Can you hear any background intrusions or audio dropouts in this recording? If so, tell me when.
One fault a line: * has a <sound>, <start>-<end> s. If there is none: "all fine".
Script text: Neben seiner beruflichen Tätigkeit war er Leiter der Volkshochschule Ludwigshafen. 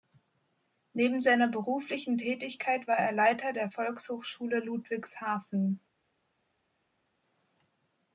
all fine